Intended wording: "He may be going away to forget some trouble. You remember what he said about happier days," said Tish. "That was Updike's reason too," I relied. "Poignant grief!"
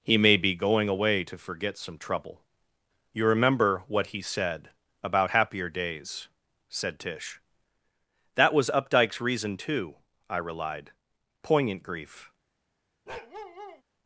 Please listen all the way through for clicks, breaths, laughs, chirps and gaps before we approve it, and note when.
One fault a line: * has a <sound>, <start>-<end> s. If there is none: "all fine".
* has a bark, 13.1-13.8 s